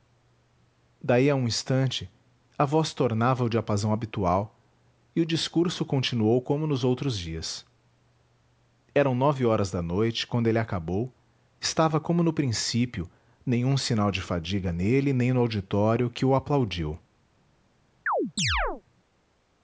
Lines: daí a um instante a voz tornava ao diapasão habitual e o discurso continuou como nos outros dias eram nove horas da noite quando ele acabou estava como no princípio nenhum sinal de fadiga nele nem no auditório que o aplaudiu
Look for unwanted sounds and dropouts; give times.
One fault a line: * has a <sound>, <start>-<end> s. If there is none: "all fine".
* has a chirp, 18.1-18.8 s